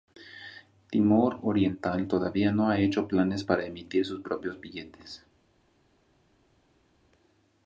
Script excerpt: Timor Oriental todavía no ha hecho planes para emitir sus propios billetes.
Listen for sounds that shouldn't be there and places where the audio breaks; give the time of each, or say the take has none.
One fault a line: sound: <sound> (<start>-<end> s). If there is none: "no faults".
no faults